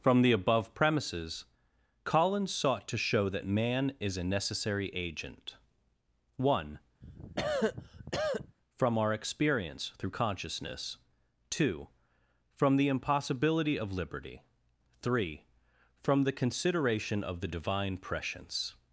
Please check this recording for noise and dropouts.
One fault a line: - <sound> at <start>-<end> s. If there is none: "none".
- cough at 7.0-8.6 s